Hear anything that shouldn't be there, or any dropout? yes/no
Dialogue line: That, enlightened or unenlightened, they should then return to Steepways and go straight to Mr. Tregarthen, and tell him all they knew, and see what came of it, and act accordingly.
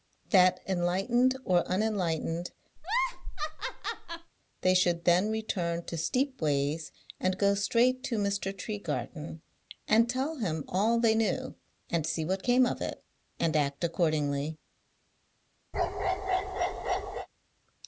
yes